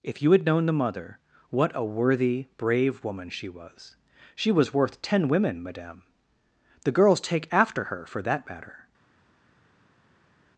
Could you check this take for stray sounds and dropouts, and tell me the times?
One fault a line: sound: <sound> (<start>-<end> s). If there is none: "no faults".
no faults